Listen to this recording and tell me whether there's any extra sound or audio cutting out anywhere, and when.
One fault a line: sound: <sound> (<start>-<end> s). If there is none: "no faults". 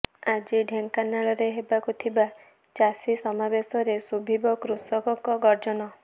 no faults